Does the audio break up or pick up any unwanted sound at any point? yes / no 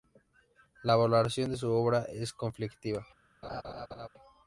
yes